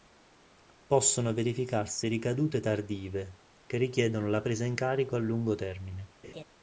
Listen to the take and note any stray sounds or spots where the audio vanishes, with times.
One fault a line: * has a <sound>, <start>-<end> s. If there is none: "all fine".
* has a laugh, 6.2-6.4 s